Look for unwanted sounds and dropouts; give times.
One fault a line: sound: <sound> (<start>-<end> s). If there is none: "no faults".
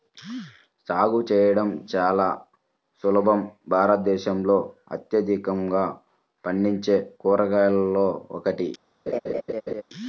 sound: laugh (9.1-9.8 s)